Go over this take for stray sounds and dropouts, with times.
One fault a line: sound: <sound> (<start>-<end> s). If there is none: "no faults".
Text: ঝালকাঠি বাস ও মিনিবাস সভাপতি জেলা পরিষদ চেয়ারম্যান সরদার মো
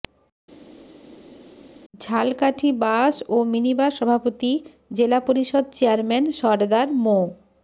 no faults